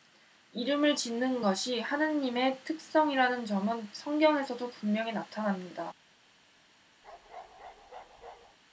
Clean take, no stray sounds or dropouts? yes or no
no